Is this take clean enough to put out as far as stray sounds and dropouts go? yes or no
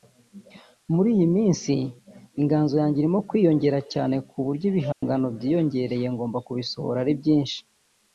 no